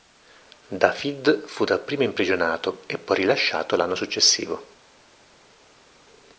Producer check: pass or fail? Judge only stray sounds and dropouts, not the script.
pass